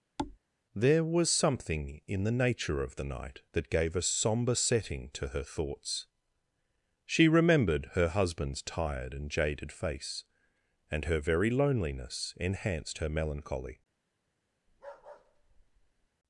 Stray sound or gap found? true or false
true